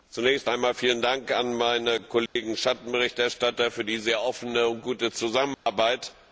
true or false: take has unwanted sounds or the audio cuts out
true